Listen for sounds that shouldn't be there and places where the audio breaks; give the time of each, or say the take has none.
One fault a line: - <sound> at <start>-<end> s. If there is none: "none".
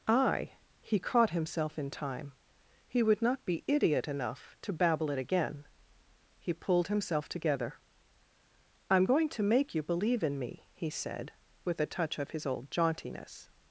none